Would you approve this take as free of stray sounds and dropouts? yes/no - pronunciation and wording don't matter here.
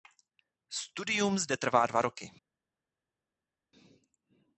yes